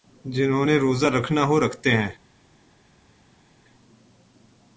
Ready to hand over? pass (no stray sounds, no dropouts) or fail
pass